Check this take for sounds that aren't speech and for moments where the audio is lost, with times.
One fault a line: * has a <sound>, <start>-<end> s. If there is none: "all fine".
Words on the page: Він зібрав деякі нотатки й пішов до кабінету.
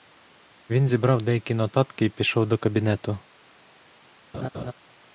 * has a laugh, 4.3-4.7 s